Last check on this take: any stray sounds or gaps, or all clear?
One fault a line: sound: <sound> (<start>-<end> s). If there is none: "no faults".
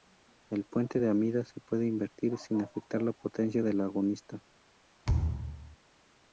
sound: thud (5.1-5.8 s)